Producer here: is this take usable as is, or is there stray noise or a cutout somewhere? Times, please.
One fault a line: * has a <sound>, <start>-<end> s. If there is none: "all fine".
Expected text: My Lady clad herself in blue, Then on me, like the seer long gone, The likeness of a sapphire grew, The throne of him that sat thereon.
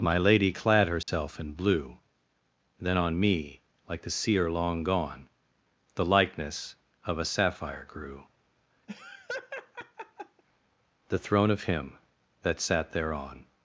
* has a dropout, 1.0-1.1 s
* has a laugh, 8.9-10.4 s